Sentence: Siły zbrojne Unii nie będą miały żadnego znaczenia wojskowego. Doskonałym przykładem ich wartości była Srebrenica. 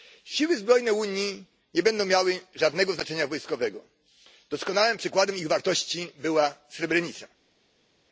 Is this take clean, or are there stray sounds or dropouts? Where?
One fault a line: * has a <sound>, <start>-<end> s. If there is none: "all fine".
all fine